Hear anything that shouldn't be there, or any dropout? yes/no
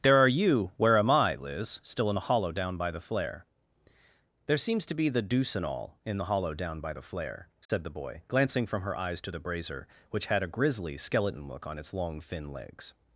yes